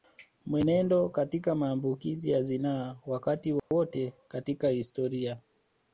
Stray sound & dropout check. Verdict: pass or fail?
fail